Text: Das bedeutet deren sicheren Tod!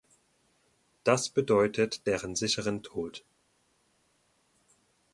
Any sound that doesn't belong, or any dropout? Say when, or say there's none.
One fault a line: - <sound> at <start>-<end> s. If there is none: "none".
none